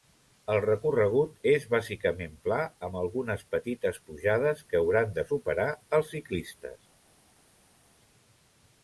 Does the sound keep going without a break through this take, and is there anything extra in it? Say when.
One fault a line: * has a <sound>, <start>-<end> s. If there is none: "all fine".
all fine